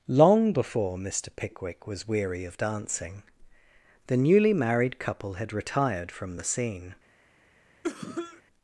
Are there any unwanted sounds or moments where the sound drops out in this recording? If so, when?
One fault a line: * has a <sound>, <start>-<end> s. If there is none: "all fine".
* has a cough, 7.8-8.4 s